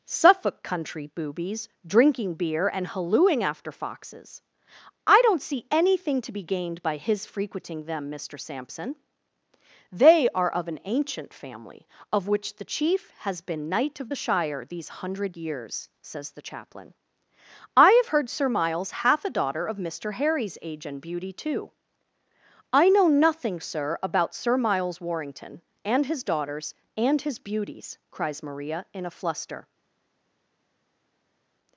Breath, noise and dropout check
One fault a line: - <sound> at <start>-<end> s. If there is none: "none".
none